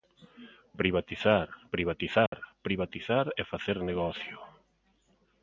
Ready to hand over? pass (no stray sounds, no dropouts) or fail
fail